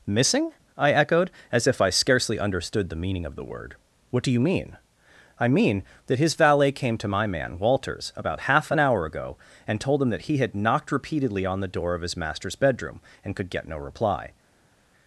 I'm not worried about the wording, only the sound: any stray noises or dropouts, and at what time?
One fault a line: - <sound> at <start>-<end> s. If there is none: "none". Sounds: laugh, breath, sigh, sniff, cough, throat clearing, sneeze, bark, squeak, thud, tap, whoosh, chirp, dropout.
none